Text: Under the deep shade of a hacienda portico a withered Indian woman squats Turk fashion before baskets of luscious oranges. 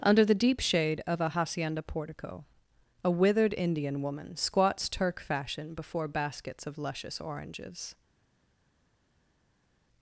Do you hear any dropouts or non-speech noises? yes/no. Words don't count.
no